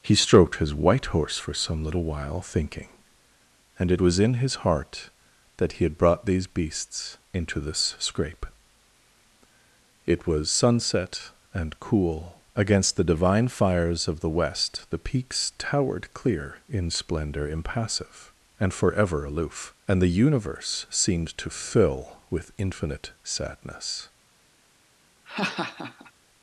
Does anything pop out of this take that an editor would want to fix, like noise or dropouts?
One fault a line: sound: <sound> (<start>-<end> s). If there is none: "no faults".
sound: laugh (25.2-26.1 s)